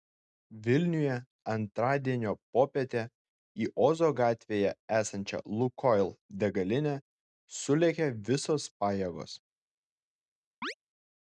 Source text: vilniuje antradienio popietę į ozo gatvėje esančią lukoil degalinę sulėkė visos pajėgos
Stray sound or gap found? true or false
true